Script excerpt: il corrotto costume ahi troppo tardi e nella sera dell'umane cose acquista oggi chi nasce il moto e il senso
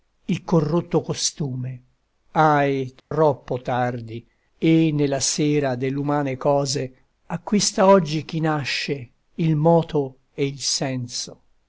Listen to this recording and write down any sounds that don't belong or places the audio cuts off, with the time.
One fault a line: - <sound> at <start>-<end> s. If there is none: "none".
- dropout at 3.0-3.1 s